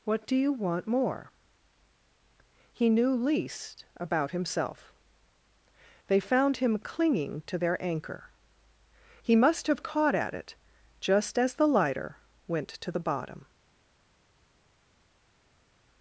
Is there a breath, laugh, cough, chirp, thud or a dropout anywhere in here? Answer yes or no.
no